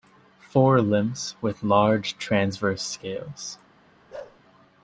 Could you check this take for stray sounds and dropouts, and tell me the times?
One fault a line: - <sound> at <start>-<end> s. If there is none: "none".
- bark at 4.1-4.4 s